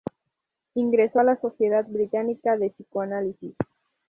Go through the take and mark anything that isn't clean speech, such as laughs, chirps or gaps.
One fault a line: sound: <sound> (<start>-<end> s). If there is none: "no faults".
no faults